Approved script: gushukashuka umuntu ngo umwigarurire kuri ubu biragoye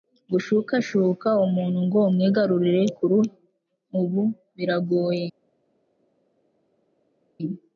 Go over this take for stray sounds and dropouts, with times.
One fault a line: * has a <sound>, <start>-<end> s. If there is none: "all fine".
all fine